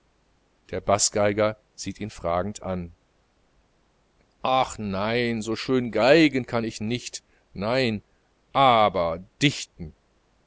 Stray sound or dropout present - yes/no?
no